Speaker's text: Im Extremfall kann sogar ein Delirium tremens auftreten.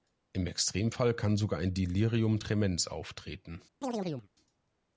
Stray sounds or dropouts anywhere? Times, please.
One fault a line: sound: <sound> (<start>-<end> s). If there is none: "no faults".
sound: chirp (3.8-4.3 s)